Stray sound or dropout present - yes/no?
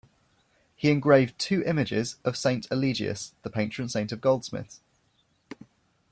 no